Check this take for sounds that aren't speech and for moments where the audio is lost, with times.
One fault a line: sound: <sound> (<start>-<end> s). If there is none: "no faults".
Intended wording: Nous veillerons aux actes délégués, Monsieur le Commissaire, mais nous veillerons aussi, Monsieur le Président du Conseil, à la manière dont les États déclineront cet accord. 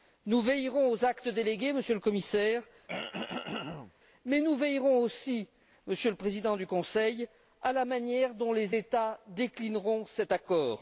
sound: throat clearing (2.9-3.9 s)